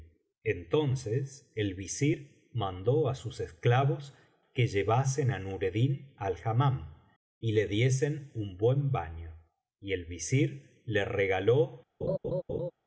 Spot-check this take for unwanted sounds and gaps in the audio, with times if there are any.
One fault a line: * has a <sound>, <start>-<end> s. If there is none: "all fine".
* has a laugh, 12.0-12.7 s